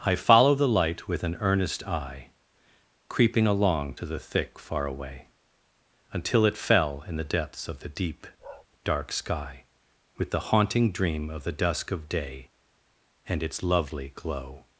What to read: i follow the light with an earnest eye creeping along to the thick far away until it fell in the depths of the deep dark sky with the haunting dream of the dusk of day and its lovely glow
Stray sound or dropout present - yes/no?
yes